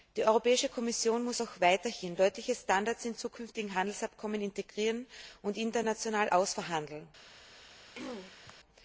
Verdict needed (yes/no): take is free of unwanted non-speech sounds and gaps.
no